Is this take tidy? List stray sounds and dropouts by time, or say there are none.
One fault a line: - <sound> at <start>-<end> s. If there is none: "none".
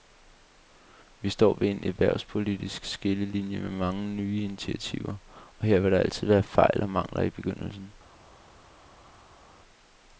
none